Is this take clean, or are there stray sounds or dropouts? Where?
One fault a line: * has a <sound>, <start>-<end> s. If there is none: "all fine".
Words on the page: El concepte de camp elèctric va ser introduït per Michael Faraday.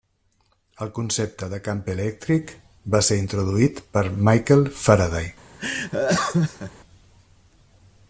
* has a laugh, 5.6-6.7 s